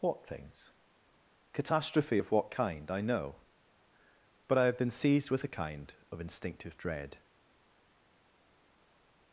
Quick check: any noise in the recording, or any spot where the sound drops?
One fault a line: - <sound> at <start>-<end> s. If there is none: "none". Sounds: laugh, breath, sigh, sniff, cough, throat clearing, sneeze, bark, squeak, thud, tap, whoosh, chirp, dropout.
none